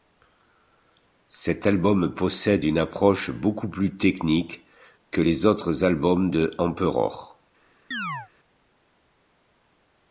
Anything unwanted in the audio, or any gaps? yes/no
yes